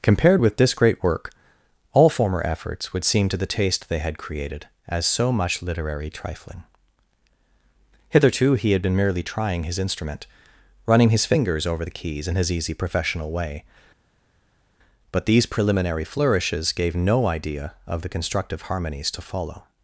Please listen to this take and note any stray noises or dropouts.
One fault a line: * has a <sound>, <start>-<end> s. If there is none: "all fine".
all fine